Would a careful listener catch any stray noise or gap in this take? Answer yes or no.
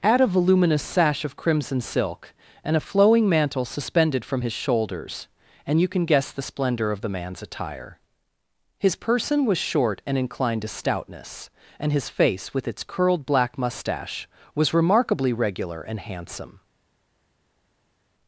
no